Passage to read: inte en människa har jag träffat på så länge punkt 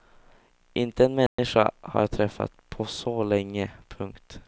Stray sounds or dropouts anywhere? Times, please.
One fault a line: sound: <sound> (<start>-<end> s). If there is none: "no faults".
sound: dropout (1.3-1.4 s)